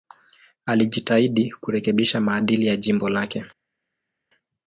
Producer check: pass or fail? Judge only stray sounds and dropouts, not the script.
pass